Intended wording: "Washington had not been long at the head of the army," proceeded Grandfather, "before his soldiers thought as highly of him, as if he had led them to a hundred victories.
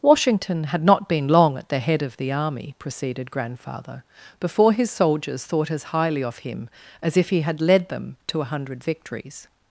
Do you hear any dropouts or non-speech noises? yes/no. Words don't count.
no